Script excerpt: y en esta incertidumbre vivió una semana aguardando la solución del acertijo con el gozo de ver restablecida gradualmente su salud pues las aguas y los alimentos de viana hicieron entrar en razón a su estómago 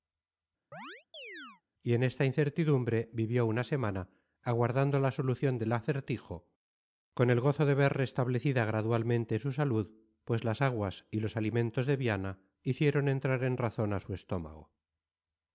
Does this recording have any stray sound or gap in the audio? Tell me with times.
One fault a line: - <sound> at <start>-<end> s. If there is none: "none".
- chirp at 0.7-1.6 s